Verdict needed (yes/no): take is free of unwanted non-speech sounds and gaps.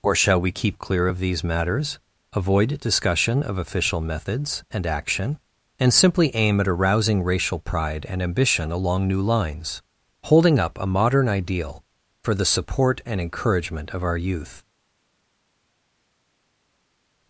yes